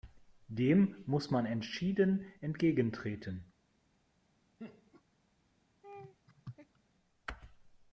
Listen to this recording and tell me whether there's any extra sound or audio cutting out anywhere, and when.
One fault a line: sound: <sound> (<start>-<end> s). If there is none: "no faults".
sound: laugh (4.6-5.0 s)
sound: laugh (5.8-6.8 s)